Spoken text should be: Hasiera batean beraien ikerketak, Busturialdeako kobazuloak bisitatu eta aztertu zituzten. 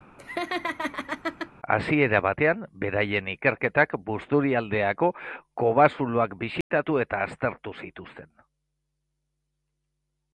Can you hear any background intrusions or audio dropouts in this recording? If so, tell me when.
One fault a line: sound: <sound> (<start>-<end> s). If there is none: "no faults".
sound: laugh (0.2-1.5 s)
sound: dropout (6.6-6.7 s)